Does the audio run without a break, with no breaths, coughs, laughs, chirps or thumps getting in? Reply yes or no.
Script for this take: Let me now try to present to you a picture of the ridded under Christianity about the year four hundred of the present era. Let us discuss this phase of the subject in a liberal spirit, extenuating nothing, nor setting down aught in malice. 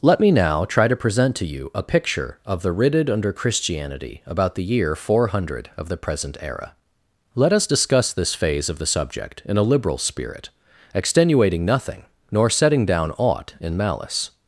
yes